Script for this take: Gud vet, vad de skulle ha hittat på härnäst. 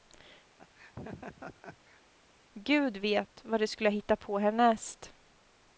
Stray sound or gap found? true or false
true